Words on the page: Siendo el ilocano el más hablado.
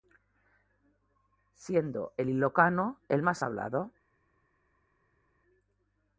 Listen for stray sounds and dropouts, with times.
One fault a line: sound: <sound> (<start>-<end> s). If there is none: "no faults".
no faults